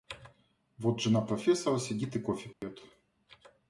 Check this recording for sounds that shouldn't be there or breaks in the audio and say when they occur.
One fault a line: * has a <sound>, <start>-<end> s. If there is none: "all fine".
* has a dropout, 2.5-2.6 s